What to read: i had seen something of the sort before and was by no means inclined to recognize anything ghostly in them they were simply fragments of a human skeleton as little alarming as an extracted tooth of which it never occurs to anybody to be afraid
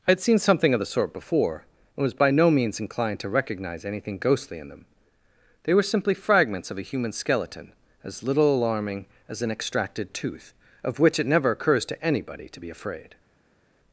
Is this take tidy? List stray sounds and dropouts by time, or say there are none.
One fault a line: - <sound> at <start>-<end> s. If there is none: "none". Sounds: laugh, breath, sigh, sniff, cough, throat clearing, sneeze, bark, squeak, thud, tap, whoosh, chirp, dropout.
none